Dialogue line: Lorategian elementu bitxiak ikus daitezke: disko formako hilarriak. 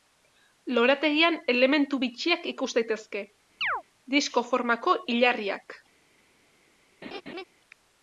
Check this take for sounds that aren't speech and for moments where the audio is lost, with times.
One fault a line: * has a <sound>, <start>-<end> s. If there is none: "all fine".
* has a chirp, 3.6-3.8 s
* has a laugh, 7.0-7.4 s